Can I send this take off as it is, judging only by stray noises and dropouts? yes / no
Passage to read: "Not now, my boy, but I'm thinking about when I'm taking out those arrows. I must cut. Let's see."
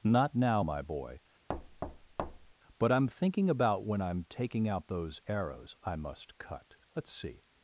no